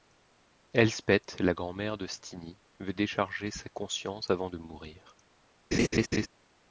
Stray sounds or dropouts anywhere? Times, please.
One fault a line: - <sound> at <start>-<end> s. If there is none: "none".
- laugh at 5.7-6.3 s